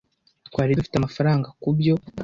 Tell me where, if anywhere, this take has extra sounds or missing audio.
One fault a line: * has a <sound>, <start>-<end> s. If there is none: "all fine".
all fine